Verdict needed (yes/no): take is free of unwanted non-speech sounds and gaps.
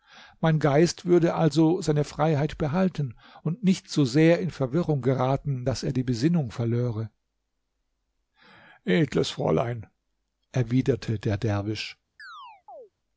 no